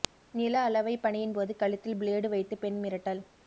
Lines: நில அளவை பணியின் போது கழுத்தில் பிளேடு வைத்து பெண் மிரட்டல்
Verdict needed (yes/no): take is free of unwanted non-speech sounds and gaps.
yes